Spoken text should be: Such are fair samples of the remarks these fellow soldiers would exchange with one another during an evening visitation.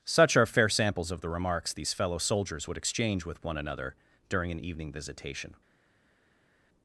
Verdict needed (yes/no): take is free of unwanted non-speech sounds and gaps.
yes